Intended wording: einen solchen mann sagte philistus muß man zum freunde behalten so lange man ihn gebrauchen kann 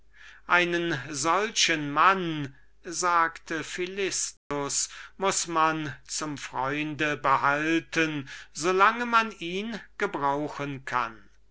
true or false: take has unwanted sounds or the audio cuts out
true